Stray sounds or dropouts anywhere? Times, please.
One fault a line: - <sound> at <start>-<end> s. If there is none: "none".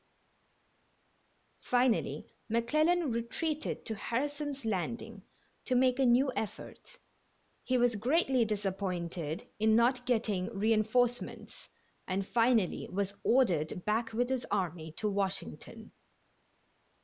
none